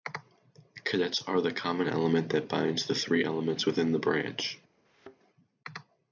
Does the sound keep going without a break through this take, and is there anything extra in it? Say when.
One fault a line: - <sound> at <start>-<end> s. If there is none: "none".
- thud at 4.9-5.2 s